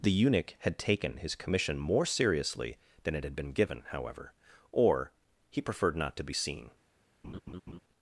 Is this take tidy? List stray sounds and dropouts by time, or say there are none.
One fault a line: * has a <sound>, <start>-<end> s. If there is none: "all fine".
* has a laugh, 7.2-7.8 s